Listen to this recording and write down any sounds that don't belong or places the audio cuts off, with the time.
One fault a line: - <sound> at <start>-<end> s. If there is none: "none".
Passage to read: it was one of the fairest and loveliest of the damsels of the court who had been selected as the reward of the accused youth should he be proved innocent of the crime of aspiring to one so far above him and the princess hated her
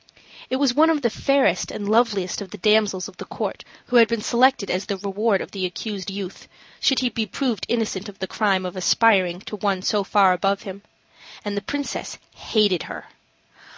none